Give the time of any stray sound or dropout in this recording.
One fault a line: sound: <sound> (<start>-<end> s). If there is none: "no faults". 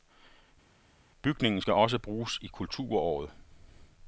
no faults